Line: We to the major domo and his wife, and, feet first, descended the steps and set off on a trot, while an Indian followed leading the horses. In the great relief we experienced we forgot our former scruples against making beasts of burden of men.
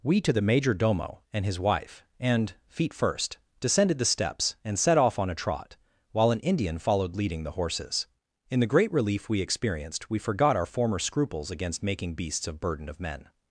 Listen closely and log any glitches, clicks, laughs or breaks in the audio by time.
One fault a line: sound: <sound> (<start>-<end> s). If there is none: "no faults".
no faults